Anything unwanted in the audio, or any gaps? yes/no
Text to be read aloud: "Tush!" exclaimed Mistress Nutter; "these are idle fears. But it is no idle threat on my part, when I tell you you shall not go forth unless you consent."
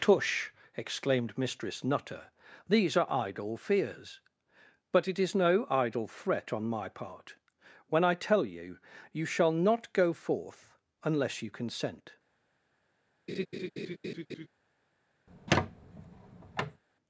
yes